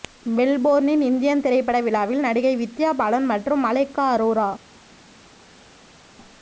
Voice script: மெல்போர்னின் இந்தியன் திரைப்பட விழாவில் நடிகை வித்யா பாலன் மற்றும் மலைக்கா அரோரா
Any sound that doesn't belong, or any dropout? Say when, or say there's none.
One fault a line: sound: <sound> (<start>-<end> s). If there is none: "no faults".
no faults